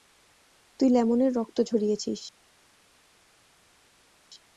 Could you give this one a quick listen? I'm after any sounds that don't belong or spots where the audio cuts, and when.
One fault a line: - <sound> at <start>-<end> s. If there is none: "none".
none